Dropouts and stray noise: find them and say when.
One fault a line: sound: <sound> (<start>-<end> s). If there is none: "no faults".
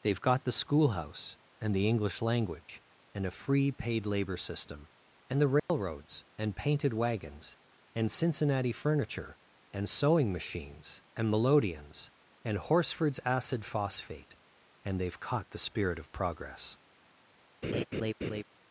sound: dropout (5.6-5.7 s)
sound: laugh (17.6-18.4 s)